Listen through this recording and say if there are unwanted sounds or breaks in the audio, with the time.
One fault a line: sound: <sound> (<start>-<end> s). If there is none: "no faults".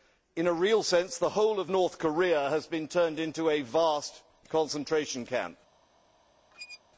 sound: squeak (6.5-6.8 s)